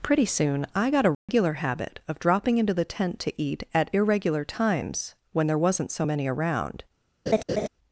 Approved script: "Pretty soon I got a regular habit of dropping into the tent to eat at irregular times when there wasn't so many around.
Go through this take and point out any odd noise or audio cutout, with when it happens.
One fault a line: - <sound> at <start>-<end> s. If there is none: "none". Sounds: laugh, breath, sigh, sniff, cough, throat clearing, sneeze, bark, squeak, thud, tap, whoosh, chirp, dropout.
- dropout at 1.1-1.3 s
- laugh at 7.3-7.7 s